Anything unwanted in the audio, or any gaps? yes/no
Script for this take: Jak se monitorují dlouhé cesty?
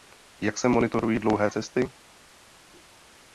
no